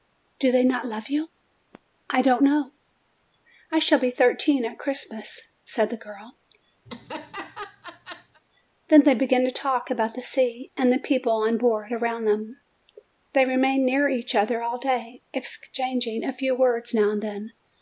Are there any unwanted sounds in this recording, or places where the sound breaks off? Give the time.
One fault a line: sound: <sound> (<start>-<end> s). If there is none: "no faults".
sound: laugh (6.9-8.4 s)